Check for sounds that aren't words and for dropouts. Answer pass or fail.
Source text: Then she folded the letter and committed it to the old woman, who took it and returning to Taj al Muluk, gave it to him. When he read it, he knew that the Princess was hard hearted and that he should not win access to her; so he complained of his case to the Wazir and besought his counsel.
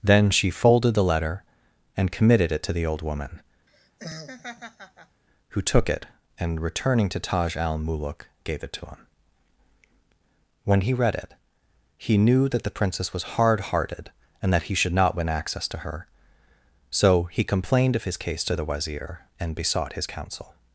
fail